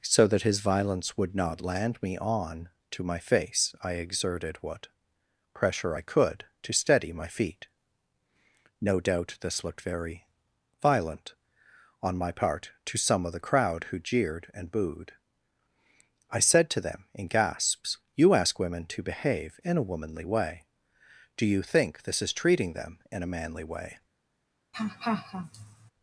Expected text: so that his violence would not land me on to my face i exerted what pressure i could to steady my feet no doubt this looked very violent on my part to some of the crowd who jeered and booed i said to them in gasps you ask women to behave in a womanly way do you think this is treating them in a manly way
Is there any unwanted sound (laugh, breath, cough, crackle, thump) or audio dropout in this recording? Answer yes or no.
yes